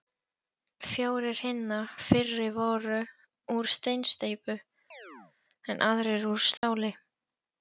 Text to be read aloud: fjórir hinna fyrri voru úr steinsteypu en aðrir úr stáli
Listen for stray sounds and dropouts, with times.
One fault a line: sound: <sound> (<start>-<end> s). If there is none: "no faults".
sound: chirp (4.9-5.3 s)
sound: dropout (6.6-6.6 s)